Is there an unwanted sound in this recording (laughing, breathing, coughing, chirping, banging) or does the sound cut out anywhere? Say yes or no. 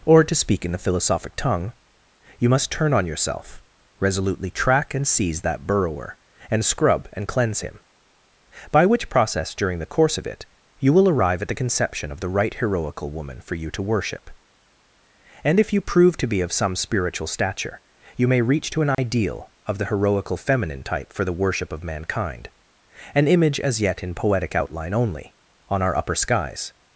yes